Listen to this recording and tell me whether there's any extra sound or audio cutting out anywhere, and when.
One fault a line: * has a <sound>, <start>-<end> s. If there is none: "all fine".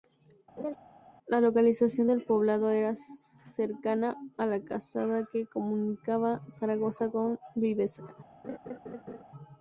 * has a laugh, 0.6-0.8 s
* has a laugh, 8.4-9.2 s